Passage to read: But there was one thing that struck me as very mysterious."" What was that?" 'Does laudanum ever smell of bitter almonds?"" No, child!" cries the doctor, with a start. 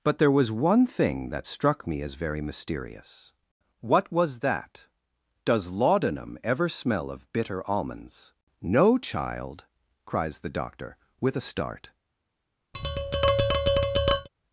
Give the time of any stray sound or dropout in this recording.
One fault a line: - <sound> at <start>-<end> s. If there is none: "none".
- tap at 12.7-14.3 s